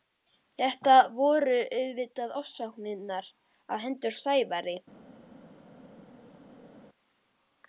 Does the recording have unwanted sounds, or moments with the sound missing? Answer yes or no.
no